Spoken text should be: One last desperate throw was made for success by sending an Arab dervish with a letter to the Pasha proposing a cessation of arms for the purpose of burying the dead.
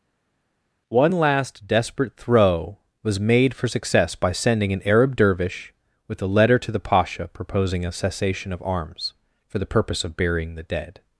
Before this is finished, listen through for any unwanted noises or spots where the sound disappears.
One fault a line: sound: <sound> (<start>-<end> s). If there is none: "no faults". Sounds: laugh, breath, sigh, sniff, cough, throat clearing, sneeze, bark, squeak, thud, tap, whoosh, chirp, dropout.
no faults